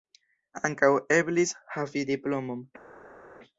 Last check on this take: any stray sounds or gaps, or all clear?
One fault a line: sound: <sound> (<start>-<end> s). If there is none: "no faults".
no faults